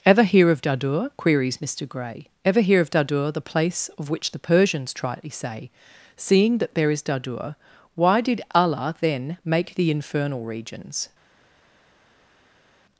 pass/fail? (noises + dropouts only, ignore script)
pass